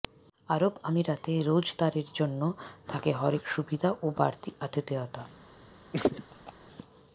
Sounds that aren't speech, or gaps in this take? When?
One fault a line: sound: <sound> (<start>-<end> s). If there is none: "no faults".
sound: laugh (5.9-6.5 s)